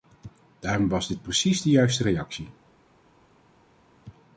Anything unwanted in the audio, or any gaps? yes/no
no